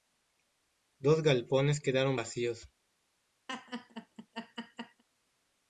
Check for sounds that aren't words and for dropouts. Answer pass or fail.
fail